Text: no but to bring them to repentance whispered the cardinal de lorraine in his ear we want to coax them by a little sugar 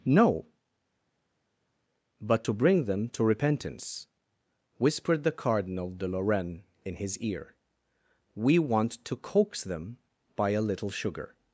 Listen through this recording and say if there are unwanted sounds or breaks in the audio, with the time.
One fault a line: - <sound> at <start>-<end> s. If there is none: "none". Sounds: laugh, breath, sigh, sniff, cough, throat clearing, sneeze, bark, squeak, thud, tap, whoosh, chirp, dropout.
none